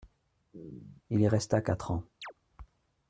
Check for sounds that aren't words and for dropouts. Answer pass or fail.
fail